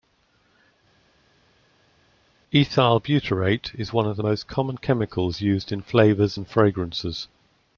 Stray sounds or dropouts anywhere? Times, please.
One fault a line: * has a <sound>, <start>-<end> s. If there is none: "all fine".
all fine